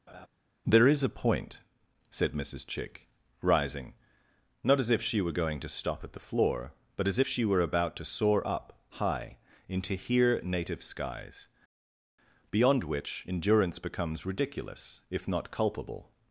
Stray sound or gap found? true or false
true